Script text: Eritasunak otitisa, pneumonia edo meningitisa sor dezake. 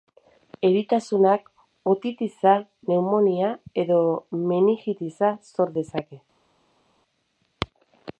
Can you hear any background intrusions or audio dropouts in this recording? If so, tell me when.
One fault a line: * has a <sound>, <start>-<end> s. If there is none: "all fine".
all fine